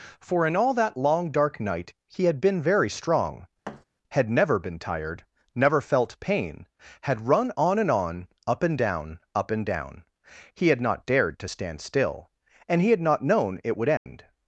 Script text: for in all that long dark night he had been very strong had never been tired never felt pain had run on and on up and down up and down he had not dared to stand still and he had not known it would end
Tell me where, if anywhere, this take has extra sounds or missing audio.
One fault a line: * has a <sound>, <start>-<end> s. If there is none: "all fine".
* has a thud, 3.6-3.8 s
* has a dropout, 14.0-14.1 s